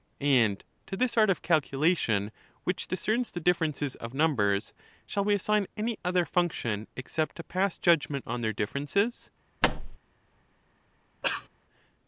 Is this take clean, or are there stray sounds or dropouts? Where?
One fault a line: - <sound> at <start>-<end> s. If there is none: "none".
- thud at 9.6-10.0 s
- cough at 11.2-11.5 s